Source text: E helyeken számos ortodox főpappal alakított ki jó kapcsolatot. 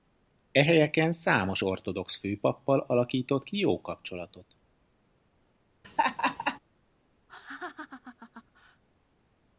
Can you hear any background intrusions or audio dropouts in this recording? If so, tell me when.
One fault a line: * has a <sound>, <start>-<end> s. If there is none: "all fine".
* has a laugh, 5.8-6.6 s
* has a laugh, 7.3-8.8 s